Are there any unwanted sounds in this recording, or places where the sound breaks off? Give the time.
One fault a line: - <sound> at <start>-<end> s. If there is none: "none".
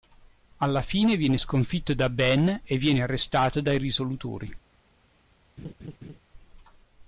- laugh at 5.6-6.2 s